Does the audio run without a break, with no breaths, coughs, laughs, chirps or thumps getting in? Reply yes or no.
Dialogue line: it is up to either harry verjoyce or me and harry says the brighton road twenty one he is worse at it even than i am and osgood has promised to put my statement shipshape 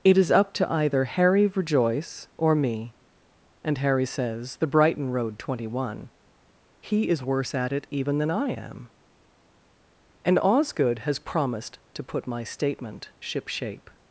yes